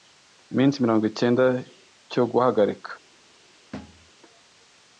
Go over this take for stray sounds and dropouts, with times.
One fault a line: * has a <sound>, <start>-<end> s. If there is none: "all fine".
* has a thud, 3.7-4.1 s